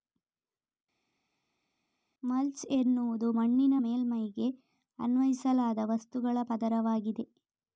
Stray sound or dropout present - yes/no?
no